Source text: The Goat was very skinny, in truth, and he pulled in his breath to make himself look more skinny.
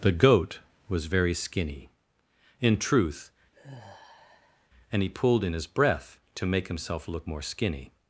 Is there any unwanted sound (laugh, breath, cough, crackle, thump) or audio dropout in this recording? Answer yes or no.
yes